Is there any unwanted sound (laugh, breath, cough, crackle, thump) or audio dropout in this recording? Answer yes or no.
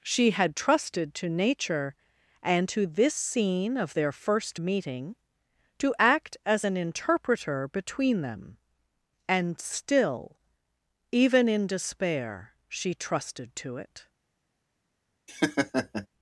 yes